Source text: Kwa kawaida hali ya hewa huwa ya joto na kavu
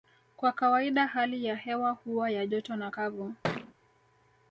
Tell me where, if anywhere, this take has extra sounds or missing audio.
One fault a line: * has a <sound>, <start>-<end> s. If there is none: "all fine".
* has a thud, 3.4-3.7 s